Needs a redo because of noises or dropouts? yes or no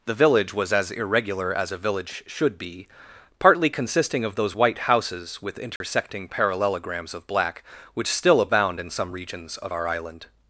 yes